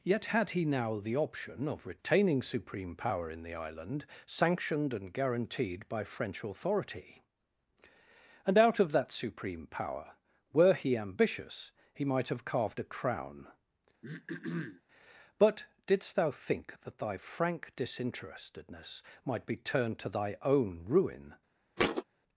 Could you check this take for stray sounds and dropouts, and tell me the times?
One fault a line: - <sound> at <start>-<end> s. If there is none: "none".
- throat clearing at 14.0-14.8 s
- thud at 21.8-22.0 s